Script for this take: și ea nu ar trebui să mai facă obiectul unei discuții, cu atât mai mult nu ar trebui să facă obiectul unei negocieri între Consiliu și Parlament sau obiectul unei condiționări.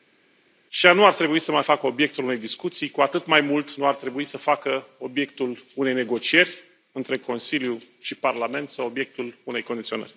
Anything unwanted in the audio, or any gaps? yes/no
no